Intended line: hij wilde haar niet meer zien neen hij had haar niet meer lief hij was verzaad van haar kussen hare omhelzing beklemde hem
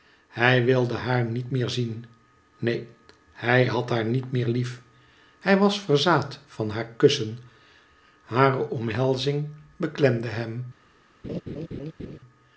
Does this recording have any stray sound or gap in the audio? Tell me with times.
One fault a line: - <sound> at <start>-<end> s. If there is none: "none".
- laugh at 11.2-12.2 s